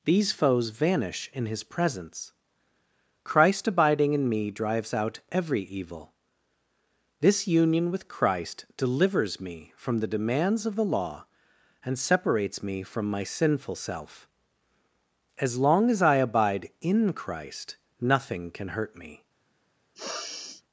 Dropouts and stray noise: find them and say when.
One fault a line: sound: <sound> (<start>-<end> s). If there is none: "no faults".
sound: sniff (19.9-20.6 s)